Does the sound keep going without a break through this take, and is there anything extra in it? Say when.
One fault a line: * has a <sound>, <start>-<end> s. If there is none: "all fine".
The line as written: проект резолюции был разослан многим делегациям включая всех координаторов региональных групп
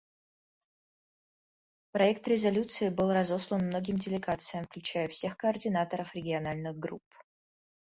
all fine